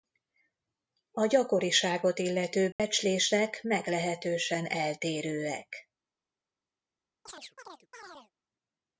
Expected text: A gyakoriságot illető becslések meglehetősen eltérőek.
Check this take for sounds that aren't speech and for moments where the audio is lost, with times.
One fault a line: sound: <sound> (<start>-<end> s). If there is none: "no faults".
sound: dropout (2.7-2.8 s)
sound: chirp (7.3-8.3 s)